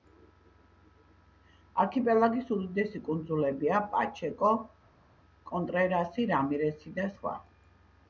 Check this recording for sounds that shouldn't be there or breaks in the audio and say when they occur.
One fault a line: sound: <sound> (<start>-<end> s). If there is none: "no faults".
no faults